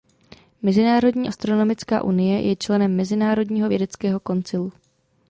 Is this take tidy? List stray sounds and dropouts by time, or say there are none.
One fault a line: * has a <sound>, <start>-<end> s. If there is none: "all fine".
all fine